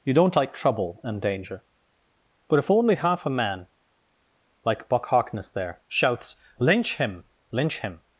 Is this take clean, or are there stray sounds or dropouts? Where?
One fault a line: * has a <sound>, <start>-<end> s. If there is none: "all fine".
all fine